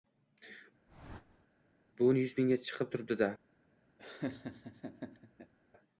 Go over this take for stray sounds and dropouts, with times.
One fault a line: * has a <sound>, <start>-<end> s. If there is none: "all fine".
* has a whoosh, 0.9-1.5 s
* has a laugh, 4.0-5.5 s